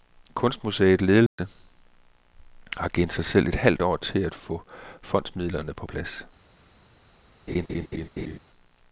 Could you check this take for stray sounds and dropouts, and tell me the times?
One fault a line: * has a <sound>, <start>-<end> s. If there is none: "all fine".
* has a dropout, 1.3-1.4 s
* has a laugh, 7.5-8.4 s